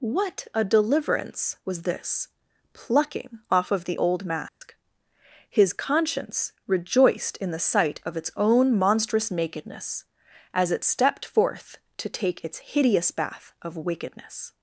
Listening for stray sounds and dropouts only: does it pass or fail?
fail